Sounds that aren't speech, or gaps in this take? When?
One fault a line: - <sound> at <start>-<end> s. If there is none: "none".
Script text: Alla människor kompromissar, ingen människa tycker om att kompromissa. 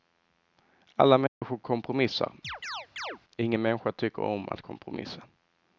- dropout at 1.3-1.4 s
- chirp at 2.4-3.2 s